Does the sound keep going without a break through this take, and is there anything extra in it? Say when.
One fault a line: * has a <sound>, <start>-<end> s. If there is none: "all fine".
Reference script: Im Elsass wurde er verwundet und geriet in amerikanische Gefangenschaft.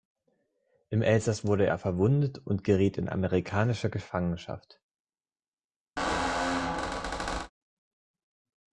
* has a squeak, 6.0-7.5 s